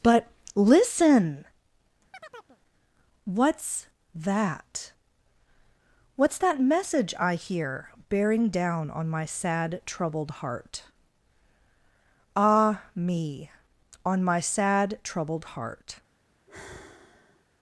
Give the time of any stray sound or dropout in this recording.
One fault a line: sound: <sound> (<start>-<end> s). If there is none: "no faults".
sound: chirp (2.1-2.6 s)
sound: sigh (16.5-17.4 s)